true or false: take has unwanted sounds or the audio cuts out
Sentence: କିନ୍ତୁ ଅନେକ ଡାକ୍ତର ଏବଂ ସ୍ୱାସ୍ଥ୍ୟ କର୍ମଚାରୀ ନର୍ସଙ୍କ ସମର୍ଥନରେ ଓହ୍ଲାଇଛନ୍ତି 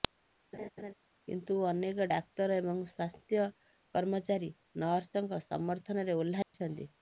true